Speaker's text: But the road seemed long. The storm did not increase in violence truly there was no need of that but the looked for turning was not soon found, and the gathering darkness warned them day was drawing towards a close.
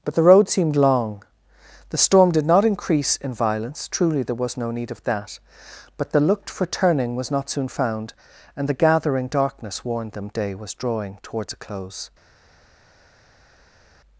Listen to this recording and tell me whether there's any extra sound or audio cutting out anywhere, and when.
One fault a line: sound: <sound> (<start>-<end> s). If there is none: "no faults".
no faults